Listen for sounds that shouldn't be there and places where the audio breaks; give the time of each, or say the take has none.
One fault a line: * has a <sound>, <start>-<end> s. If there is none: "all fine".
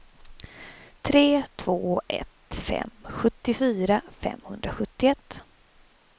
all fine